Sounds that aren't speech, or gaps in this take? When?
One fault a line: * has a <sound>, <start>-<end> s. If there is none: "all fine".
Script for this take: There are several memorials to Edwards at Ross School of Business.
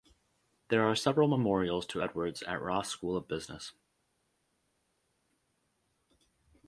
all fine